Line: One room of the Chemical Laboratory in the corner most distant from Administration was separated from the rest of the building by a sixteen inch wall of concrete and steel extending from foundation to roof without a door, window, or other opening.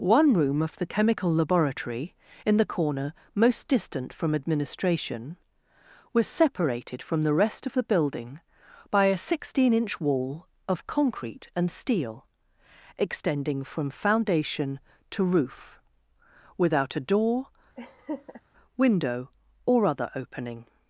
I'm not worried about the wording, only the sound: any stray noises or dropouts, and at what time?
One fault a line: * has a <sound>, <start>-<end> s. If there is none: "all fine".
* has a laugh, 17.8-18.4 s